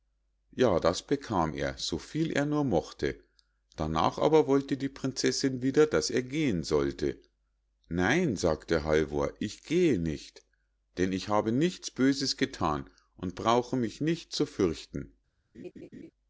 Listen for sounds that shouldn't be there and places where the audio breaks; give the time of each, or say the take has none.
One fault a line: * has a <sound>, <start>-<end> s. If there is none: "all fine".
* has a laugh, 15.5-16.1 s